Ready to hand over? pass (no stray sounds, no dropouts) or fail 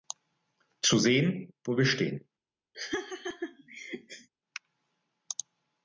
fail